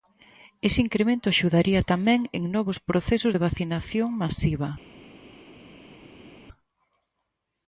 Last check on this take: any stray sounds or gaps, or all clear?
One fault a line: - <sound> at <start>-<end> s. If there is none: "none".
none